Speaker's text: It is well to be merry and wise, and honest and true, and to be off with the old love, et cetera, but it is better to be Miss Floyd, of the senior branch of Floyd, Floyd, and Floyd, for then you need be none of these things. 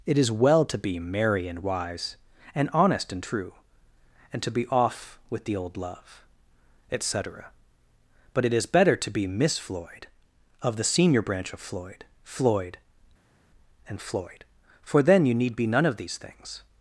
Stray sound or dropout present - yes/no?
no